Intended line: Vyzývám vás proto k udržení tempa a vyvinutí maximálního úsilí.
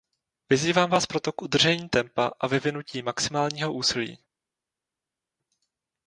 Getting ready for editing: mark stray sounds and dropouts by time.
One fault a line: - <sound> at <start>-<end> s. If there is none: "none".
none